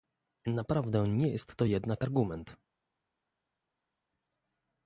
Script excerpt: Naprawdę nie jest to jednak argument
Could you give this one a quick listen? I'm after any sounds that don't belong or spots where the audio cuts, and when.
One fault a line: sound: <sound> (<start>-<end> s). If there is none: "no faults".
no faults